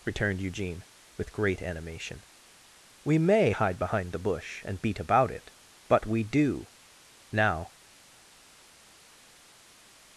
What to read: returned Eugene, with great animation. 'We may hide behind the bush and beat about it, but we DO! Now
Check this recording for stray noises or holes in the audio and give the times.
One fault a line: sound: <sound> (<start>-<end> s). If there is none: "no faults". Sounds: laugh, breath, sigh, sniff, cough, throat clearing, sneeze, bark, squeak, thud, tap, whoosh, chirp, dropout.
no faults